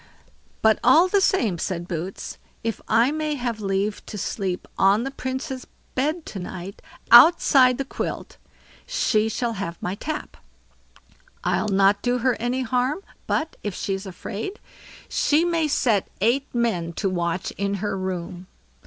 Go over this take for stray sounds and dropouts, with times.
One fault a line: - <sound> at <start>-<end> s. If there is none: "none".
none